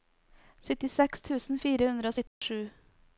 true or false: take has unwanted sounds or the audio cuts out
true